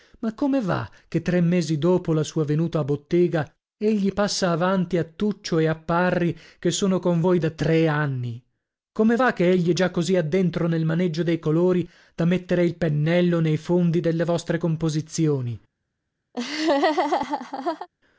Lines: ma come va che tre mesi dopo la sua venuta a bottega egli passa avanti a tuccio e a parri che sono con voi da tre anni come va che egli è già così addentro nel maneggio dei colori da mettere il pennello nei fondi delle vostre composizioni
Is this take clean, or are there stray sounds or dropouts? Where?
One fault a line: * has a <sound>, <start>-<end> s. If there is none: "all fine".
* has a laugh, 16.3-17.9 s